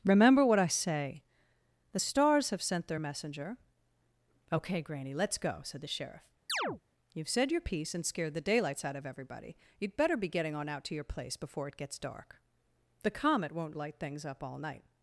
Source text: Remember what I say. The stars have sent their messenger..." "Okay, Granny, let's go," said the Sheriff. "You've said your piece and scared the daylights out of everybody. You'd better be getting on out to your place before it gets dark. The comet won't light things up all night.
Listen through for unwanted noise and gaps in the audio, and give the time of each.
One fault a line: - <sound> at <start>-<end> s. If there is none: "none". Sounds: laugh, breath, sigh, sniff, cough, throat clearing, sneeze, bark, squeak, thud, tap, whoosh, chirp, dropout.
- chirp at 6.5-6.8 s